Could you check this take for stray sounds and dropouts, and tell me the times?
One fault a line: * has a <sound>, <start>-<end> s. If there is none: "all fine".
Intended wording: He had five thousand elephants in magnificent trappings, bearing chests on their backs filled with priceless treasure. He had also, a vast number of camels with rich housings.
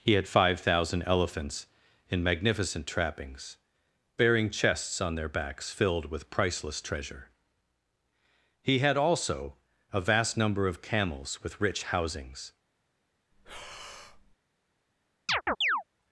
* has a breath, 13.3-14.4 s
* has a chirp, 15.3-15.8 s